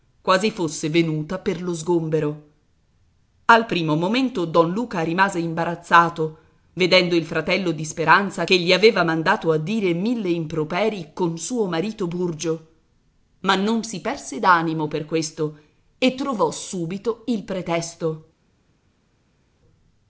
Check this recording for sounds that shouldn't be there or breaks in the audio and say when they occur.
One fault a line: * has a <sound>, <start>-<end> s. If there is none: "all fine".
all fine